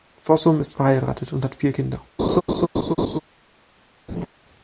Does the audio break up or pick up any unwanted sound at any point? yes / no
yes